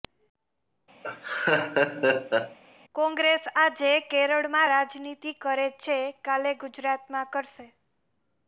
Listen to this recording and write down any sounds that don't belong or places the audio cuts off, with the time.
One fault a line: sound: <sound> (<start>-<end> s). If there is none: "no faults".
sound: laugh (1.0-2.6 s)